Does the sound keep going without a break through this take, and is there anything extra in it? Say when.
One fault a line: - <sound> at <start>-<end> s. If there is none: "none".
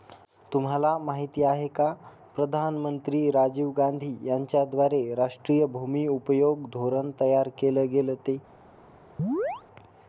- chirp at 9.2-9.6 s